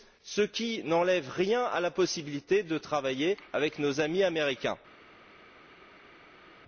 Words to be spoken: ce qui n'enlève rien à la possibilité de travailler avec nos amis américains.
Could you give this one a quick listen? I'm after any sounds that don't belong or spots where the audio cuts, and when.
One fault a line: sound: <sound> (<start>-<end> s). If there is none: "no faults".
no faults